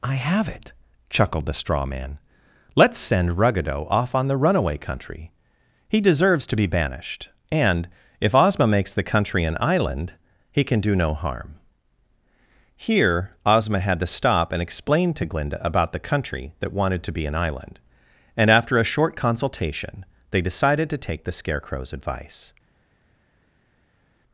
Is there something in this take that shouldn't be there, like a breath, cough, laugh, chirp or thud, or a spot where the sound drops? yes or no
no